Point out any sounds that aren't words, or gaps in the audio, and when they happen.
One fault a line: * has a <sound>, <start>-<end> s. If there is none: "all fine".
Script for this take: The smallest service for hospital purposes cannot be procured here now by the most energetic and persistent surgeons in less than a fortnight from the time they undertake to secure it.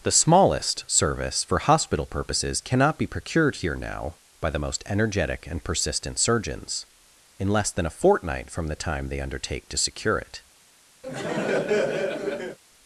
* has a laugh, 11.0-12.6 s